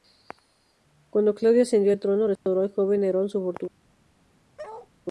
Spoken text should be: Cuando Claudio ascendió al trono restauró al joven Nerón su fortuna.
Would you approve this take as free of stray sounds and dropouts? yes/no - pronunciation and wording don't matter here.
no